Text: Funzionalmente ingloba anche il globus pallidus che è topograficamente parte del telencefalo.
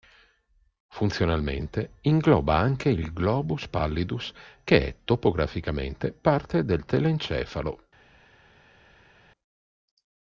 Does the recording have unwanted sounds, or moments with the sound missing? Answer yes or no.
no